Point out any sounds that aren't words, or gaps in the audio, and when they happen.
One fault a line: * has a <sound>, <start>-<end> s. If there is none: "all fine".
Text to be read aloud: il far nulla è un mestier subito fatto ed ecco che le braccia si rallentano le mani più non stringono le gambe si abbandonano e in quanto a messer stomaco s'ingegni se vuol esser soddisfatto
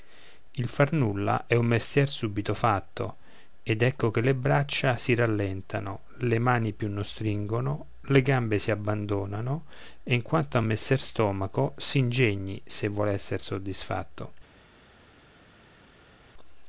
all fine